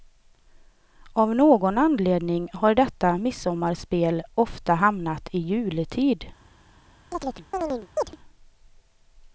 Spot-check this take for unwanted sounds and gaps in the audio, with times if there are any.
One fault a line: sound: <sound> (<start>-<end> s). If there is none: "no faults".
sound: chirp (7.1-8.2 s)